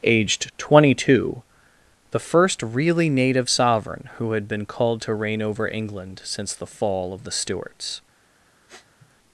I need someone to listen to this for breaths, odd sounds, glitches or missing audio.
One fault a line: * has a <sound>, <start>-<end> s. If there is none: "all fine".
* has a sniff, 8.7-9.1 s